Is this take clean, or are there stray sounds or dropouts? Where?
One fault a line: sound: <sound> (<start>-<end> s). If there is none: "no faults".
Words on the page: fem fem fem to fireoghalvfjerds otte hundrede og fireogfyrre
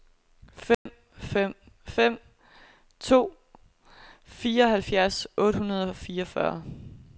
sound: dropout (0.7-0.9 s)